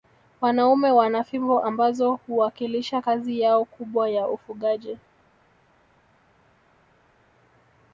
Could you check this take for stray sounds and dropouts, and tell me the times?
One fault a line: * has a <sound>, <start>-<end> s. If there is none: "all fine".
all fine